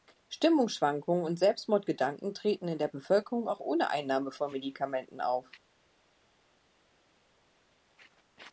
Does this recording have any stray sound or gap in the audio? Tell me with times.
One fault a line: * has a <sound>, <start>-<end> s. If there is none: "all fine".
all fine